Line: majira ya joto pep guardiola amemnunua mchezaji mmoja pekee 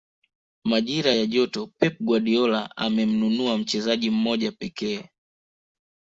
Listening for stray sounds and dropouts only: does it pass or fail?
pass